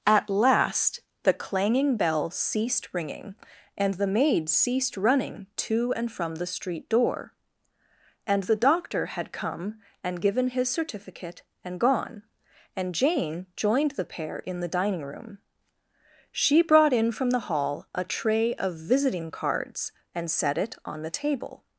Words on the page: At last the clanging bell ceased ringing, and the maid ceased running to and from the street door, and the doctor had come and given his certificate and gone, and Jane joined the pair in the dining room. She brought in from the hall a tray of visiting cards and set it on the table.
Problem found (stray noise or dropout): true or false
false